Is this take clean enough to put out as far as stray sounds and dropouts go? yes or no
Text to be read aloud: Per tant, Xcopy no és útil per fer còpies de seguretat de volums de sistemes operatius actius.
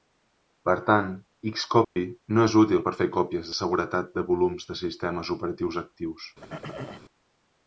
no